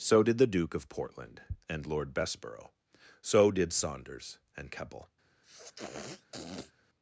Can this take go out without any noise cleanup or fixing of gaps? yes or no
no